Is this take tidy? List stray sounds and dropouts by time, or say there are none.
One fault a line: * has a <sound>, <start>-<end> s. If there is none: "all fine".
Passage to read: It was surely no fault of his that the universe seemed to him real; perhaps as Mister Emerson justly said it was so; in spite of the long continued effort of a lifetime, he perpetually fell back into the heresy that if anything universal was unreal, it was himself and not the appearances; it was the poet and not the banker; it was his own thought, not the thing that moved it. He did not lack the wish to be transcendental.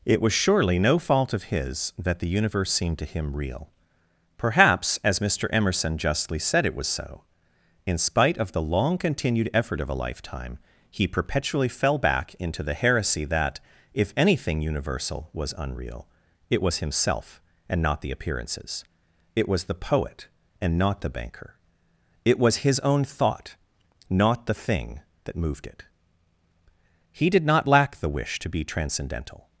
all fine